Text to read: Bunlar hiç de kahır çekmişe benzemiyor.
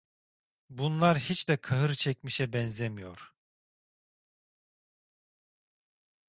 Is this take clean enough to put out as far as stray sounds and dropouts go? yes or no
yes